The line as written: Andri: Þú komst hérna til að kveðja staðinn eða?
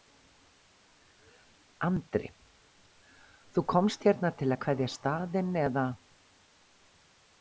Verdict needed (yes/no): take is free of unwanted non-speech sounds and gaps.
yes